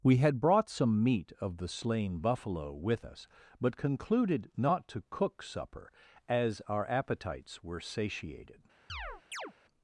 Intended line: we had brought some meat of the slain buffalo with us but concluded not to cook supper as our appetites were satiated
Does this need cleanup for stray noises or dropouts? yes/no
yes